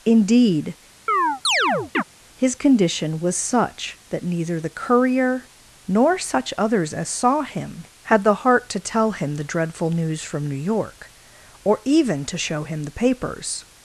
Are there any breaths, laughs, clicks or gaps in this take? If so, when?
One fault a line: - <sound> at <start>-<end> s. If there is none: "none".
- chirp at 1.1-2.0 s